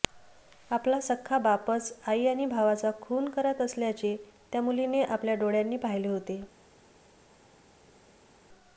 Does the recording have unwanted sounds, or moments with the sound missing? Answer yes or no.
no